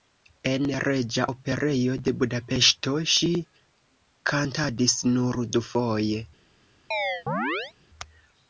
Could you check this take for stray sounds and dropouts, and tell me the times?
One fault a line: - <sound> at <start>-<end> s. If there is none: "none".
- chirp at 6.9-7.7 s